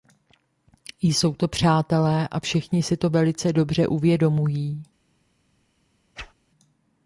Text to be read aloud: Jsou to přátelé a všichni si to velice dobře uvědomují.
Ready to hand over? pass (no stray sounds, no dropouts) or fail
fail